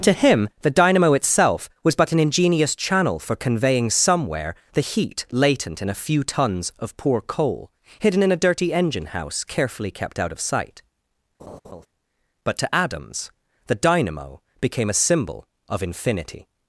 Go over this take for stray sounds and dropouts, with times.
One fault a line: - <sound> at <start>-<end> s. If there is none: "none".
- laugh at 11.4-11.9 s